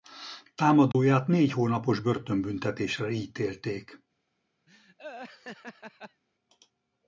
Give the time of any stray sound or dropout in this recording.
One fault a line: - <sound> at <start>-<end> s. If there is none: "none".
- dropout at 0.9-0.9 s
- laugh at 4.7-6.2 s